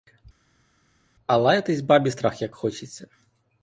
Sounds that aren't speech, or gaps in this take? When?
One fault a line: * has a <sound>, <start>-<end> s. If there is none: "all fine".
all fine